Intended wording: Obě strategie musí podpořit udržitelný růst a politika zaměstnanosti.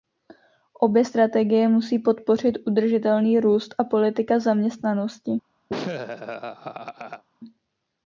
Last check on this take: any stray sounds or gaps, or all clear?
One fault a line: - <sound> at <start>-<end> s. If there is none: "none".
- laugh at 5.7-7.2 s